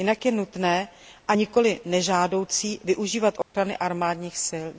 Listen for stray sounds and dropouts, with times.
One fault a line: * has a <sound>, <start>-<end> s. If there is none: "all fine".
* has a dropout, 3.4-3.5 s